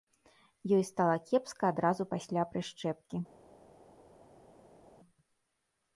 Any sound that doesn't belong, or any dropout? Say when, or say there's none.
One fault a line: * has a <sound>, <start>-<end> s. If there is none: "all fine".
all fine